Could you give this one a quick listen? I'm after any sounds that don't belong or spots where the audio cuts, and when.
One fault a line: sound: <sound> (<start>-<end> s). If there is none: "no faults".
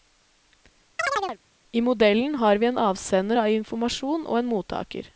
sound: chirp (1.0-1.4 s)